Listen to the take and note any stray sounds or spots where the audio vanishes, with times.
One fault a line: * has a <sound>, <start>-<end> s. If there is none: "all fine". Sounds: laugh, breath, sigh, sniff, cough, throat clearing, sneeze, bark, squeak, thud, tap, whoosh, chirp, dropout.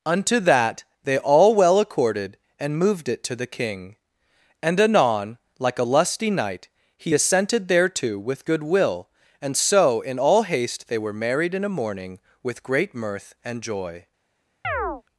* has a chirp, 14.6-15.0 s